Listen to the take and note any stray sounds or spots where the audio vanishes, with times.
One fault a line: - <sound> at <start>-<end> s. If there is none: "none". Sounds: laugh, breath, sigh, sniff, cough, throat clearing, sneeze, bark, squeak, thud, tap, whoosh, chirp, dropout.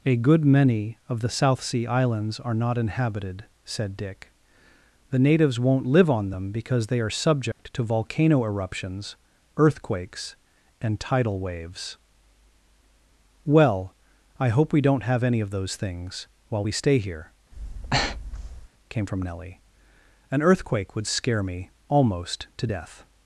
- dropout at 7.5-7.6 s
- breath at 17.5-18.7 s